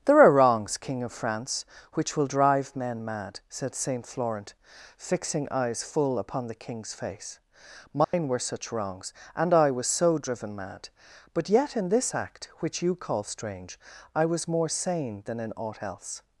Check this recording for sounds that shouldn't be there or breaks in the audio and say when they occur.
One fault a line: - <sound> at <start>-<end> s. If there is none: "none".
- dropout at 8.0-8.1 s